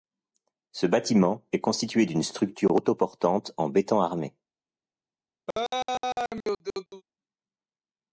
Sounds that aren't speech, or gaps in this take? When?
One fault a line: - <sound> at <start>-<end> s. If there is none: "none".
- laugh at 5.5-7.0 s